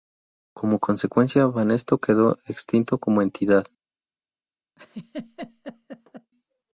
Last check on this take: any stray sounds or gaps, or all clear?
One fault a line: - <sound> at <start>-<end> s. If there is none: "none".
- laugh at 4.8-6.3 s